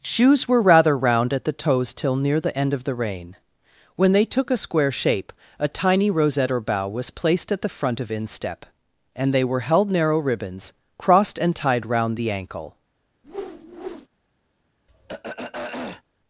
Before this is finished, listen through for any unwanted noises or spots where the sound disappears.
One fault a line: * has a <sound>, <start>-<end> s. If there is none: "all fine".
* has a whoosh, 13.2-14.1 s
* has a throat clearing, 14.9-16.0 s